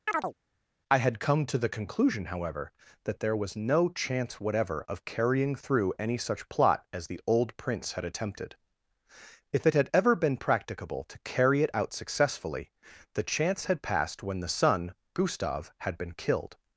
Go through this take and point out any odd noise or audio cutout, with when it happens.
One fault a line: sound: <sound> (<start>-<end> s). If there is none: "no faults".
sound: chirp (0.1-0.3 s)